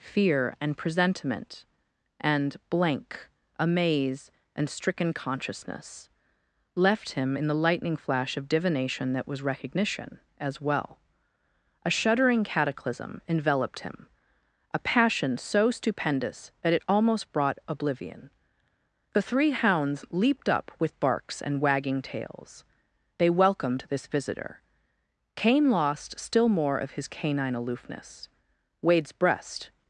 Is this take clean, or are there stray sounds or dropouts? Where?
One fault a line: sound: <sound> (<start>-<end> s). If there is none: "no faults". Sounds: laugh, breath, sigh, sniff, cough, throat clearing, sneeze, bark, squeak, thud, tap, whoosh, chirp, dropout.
no faults